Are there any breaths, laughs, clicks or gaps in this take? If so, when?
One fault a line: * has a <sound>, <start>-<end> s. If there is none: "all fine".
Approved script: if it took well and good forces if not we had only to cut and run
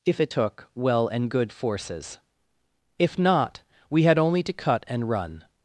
all fine